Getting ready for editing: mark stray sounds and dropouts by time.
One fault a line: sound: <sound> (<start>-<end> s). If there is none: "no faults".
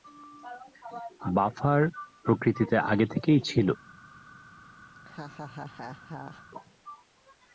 sound: laugh (4.9-6.4 s)